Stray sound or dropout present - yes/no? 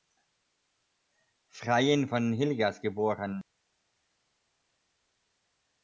no